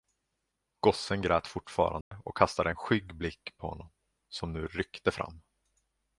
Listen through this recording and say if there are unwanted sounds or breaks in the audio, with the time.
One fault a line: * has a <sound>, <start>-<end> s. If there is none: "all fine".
* has a dropout, 2.0-2.1 s